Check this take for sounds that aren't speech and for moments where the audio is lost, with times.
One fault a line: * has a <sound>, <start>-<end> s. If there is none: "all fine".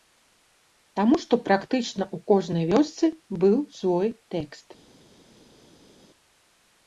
all fine